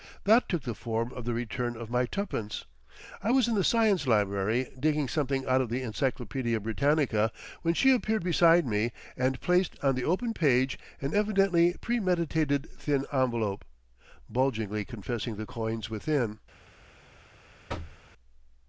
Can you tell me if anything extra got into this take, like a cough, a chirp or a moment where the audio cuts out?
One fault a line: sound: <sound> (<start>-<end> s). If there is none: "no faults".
sound: thud (17.7-18.0 s)